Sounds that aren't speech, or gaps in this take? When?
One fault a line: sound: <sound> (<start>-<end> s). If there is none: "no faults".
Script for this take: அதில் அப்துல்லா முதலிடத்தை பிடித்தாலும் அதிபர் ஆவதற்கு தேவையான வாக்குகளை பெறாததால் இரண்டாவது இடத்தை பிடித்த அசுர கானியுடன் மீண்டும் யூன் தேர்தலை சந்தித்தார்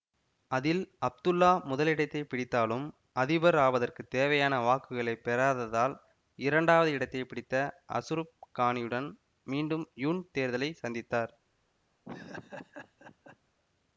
sound: laugh (12.0-13.4 s)